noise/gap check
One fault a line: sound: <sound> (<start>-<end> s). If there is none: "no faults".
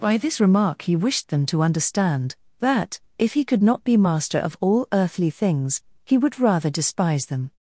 no faults